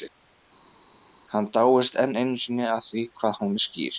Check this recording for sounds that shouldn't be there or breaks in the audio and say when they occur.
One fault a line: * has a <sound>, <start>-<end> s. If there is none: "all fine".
all fine